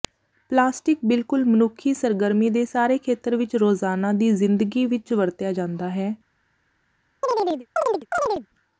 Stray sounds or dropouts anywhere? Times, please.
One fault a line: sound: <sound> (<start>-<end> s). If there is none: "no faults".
sound: chirp (7.2-8.5 s)